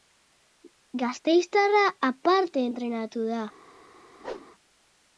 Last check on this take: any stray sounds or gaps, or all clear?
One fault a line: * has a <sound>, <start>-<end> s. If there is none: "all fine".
* has a whoosh, 4.2-4.5 s